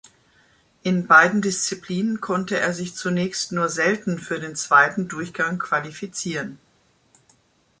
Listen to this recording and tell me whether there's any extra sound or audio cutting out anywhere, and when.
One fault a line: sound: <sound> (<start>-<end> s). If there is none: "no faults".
no faults